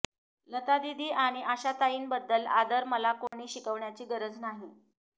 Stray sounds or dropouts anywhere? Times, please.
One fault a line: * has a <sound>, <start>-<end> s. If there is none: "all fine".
* has a dropout, 3.3-3.3 s